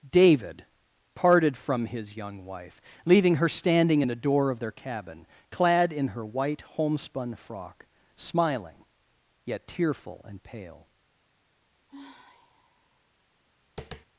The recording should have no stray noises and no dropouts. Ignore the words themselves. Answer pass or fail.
fail